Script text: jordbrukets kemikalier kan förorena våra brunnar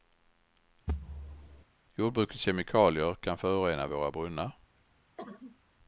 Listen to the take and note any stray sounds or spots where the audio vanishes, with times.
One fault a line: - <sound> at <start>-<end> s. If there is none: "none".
- thud at 0.9-1.6 s
- cough at 5.2-5.6 s